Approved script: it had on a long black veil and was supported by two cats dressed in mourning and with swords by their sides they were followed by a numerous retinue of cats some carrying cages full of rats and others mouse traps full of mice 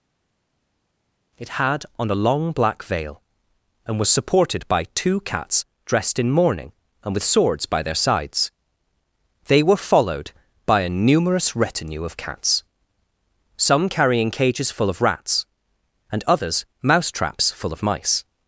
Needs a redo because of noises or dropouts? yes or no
no